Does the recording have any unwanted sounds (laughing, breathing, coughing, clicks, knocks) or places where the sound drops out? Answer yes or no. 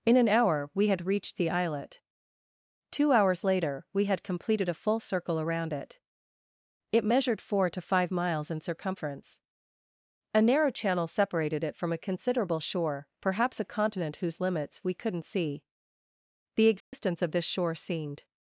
yes